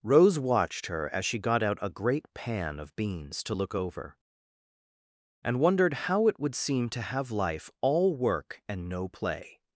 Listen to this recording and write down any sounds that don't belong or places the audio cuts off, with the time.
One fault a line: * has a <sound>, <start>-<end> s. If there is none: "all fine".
all fine